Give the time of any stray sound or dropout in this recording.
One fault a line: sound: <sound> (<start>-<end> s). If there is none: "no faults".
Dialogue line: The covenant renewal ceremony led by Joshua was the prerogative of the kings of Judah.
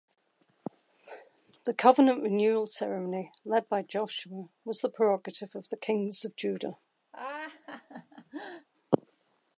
sound: laugh (7.1-8.7 s)